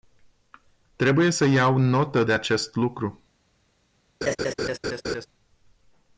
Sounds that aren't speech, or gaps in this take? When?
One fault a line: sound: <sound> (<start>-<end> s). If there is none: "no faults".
sound: laugh (4.2-5.3 s)